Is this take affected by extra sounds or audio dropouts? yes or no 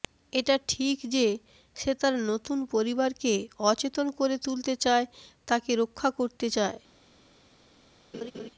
yes